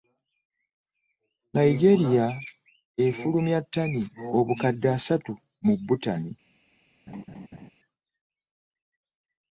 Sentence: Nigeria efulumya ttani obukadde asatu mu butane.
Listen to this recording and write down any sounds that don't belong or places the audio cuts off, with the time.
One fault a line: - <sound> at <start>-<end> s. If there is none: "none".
- laugh at 7.1-7.7 s